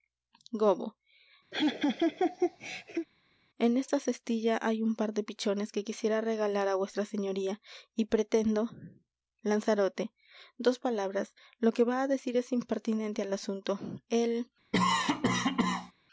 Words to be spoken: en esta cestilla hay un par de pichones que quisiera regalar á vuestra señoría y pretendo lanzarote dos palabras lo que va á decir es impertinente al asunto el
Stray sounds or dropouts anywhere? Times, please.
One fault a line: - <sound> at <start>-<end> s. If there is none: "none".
- laugh at 1.5-3.1 s
- cough at 14.7-15.9 s